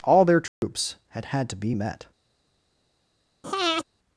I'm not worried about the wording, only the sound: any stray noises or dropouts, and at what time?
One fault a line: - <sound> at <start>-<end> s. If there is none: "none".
- dropout at 0.5-0.6 s
- breath at 3.4-3.8 s